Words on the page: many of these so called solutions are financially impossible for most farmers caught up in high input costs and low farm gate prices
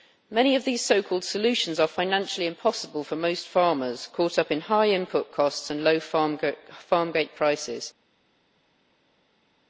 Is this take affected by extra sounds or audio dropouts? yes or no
no